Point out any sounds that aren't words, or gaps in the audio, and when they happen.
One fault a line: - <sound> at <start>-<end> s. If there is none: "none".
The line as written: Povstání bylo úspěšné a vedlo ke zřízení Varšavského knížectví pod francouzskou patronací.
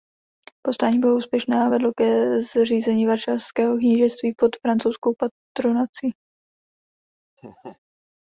- laugh at 7.4-7.8 s